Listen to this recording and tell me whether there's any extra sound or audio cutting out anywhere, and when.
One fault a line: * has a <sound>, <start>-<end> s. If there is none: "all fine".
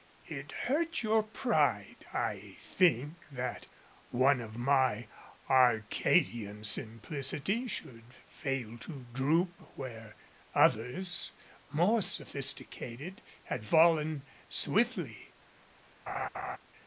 * has a laugh, 16.1-16.6 s